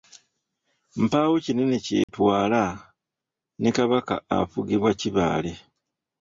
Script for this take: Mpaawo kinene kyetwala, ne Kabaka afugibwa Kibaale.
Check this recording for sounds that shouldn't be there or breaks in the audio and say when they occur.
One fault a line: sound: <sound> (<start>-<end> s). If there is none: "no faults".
sound: dropout (2.0-2.1 s)